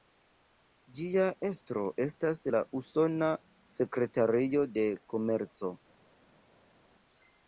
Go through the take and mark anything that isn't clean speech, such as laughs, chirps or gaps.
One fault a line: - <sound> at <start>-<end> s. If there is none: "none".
none